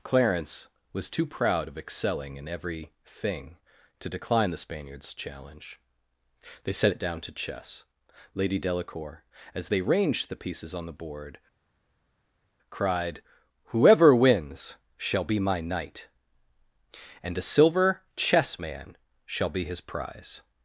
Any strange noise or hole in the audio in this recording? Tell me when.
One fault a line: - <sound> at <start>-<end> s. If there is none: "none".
none